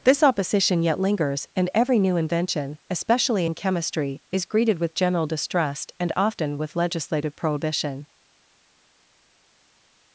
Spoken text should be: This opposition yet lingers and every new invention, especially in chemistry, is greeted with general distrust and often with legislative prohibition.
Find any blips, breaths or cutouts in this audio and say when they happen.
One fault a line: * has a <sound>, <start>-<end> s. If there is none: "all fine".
all fine